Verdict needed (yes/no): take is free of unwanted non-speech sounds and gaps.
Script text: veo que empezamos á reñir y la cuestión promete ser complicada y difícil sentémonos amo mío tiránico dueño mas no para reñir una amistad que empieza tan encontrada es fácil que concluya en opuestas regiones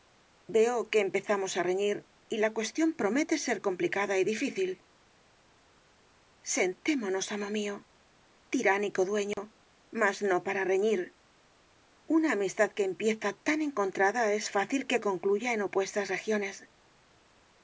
no